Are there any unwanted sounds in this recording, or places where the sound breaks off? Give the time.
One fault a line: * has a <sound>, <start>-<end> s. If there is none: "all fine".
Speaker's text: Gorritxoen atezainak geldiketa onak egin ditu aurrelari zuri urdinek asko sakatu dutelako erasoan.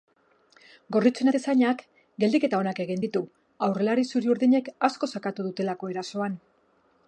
all fine